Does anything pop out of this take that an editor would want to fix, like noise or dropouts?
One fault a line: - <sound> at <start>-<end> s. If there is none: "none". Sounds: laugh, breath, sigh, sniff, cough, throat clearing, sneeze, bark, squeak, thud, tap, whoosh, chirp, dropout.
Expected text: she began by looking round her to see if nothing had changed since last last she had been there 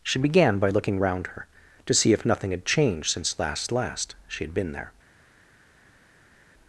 none